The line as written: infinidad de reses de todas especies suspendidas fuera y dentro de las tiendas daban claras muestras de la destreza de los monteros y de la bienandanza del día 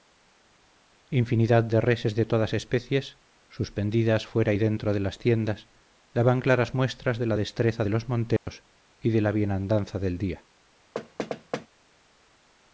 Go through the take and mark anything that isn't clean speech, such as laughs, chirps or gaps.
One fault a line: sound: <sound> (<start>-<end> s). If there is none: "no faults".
sound: dropout (8.4-8.5 s)
sound: thud (10.9-11.7 s)